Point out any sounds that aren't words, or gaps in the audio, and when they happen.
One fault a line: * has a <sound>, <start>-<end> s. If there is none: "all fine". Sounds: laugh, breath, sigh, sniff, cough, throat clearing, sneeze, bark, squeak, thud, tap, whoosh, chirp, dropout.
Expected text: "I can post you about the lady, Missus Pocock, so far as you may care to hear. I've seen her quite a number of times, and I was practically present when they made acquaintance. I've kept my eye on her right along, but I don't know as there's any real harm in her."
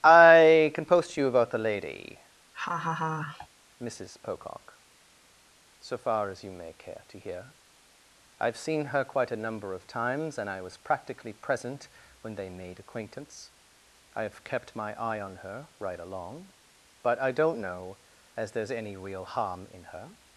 * has a laugh, 2.5-3.5 s